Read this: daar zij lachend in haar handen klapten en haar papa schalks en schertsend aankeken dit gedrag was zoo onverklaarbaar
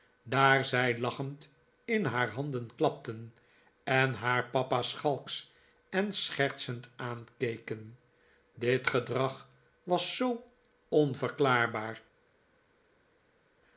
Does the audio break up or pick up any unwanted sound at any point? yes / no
no